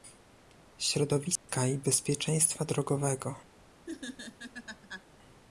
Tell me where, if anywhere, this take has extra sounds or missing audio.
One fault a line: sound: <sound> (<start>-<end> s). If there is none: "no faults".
sound: dropout (1.4-1.5 s)
sound: laugh (3.9-5.1 s)